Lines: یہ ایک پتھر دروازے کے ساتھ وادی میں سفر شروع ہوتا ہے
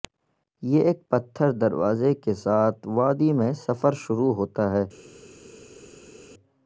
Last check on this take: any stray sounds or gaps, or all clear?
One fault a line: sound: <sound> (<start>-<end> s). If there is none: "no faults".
no faults